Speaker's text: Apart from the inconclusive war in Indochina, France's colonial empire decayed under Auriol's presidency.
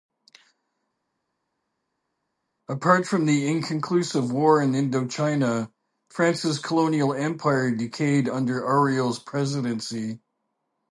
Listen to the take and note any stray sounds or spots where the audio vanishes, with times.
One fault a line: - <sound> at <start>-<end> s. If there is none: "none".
none